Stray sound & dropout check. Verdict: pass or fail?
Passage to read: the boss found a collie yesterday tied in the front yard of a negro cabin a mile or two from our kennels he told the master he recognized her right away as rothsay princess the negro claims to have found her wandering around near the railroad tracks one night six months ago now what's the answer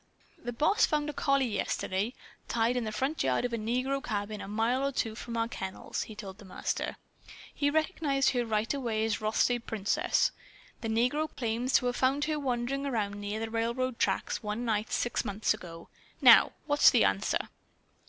fail